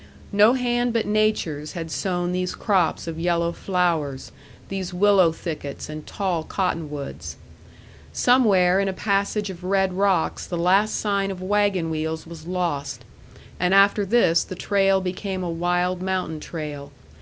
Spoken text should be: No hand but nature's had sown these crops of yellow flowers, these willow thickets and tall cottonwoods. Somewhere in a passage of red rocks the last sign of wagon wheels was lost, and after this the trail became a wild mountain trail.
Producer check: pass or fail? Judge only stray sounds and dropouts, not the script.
pass